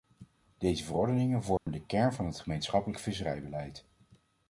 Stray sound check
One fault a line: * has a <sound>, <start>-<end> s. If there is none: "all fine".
* has a dropout, 1.6-1.7 s